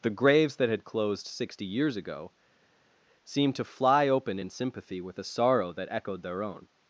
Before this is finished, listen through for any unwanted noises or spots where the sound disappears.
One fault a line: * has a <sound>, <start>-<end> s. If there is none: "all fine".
all fine